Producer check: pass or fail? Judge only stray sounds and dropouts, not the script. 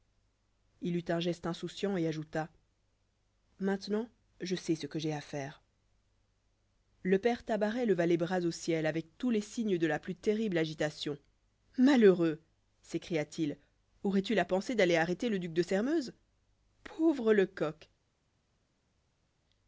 pass